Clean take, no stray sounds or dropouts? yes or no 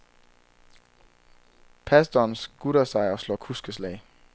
yes